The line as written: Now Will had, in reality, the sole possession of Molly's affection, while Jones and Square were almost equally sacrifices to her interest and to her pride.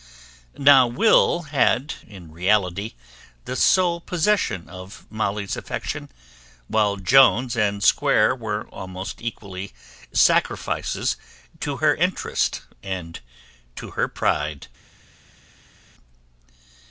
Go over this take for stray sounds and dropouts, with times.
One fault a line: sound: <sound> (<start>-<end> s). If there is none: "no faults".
no faults